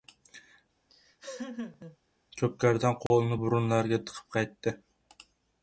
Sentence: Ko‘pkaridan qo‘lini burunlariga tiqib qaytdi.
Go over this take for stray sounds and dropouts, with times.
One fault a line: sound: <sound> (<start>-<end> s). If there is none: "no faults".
sound: laugh (0.9-2.0 s)
sound: dropout (3.1-3.1 s)